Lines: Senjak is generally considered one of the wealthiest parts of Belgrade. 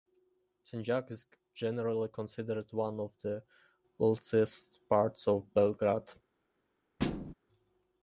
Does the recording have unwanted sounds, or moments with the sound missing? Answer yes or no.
yes